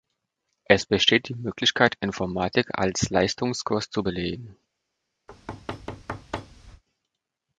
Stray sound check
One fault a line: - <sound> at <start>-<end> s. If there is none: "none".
- thud at 5.3-6.8 s